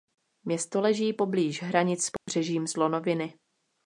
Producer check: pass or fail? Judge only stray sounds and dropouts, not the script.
fail